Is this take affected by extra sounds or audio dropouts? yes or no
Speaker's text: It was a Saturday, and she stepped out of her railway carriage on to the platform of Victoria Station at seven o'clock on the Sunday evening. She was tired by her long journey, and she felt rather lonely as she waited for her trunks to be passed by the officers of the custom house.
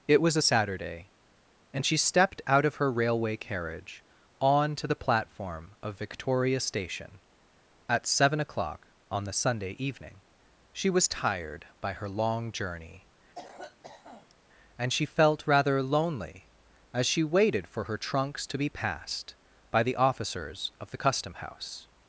yes